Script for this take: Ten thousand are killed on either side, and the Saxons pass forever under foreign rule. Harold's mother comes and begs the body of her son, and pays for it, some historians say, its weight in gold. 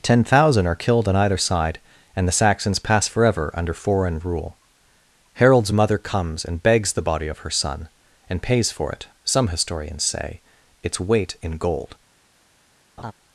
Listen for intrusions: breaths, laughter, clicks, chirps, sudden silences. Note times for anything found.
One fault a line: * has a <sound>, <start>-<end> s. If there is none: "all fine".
* has a laugh, 13.0-13.1 s